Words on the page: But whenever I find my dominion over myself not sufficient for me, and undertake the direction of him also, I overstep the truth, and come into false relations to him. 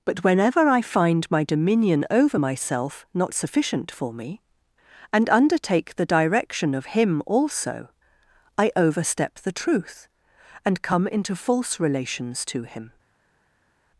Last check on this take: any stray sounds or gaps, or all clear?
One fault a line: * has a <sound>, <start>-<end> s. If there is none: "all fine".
all fine